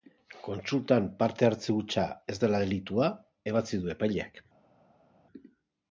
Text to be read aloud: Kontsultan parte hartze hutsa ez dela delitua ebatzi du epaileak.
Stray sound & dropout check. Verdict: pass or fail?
pass